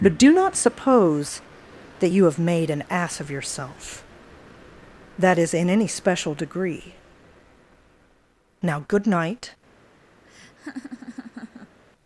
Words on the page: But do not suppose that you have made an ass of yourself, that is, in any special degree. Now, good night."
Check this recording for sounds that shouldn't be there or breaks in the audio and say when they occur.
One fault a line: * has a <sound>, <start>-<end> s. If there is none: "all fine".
* has a laugh, 10.2-11.8 s